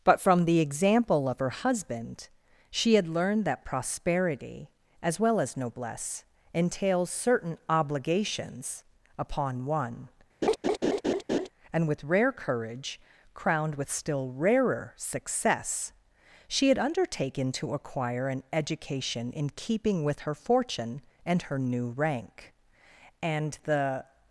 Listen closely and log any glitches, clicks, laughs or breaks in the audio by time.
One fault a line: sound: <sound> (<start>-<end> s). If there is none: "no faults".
sound: laugh (10.4-11.5 s)